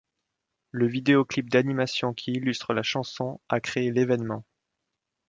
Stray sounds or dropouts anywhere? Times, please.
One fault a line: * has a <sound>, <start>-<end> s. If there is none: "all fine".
all fine